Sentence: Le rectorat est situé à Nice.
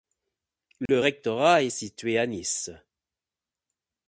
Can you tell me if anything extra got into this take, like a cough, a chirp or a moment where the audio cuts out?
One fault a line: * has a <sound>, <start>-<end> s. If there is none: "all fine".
* has a dropout, 0.9-0.9 s